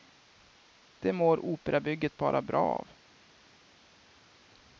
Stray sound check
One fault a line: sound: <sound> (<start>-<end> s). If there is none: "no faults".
no faults